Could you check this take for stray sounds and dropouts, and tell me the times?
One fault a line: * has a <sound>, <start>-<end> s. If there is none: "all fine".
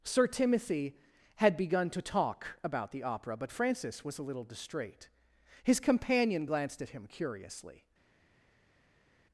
all fine